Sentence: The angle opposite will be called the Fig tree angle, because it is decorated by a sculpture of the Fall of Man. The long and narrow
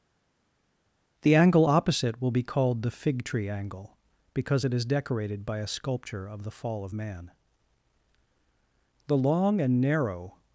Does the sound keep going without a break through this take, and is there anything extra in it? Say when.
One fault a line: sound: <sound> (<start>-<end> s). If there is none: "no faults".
no faults